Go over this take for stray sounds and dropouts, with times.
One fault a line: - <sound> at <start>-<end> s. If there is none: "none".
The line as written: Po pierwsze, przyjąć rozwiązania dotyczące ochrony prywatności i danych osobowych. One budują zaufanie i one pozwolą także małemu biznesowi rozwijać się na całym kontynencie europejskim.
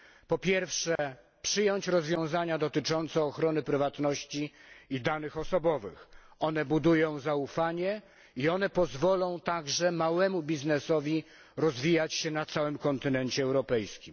- dropout at 1.0-1.0 s